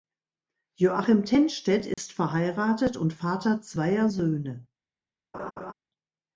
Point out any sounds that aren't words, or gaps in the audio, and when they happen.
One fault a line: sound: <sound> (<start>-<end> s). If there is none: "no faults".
sound: dropout (1.9-2.0 s)
sound: laugh (5.3-5.7 s)